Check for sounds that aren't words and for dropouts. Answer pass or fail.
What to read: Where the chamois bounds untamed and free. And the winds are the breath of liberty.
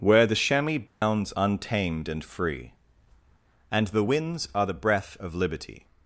fail